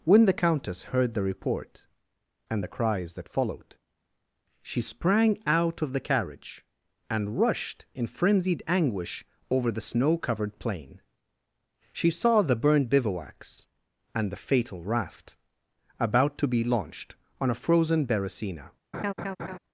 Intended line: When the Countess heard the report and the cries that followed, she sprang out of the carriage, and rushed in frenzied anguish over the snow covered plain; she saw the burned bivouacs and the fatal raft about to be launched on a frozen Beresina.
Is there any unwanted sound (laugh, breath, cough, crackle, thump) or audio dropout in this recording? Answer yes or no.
yes